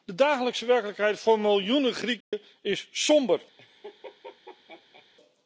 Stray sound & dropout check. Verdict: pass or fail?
fail